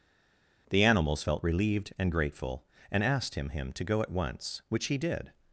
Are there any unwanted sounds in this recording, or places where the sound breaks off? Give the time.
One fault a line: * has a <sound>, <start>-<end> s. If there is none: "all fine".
all fine